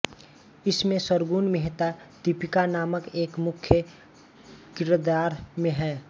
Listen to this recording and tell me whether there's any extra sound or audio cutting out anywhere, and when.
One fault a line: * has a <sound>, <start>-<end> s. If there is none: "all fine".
all fine